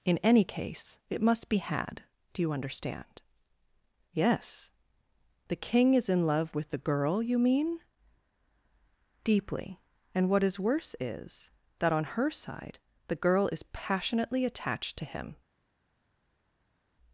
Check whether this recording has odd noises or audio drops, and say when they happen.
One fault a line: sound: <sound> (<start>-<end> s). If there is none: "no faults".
no faults